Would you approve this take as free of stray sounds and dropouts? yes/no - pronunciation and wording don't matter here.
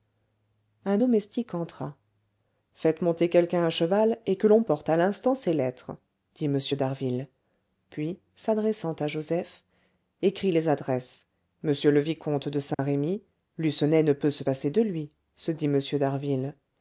no